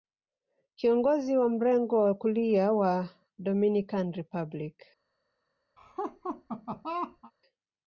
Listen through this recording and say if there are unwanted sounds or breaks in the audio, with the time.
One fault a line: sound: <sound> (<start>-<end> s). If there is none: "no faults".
sound: laugh (5.8-7.3 s)